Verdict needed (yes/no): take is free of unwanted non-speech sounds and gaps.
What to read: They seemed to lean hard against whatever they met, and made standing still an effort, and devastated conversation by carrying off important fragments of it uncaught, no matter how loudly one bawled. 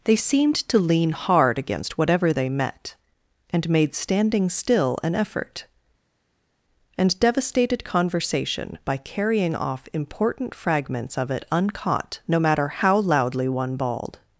yes